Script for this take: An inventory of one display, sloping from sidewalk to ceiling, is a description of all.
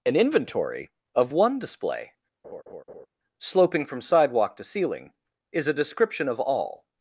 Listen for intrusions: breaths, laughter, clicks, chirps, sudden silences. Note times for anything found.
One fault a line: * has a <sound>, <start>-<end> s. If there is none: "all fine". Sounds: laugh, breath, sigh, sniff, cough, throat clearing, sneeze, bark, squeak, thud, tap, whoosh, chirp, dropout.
* has a laugh, 2.4-3.1 s